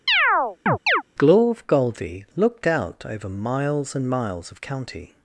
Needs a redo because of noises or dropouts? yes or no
yes